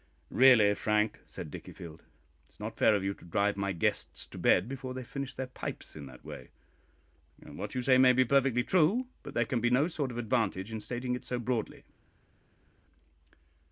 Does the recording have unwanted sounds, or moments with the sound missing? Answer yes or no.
no